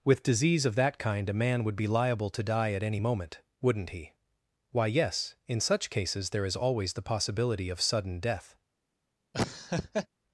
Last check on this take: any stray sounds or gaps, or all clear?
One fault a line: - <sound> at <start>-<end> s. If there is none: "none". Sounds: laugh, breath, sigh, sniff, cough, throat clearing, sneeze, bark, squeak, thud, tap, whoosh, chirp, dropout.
- laugh at 9.3-10.1 s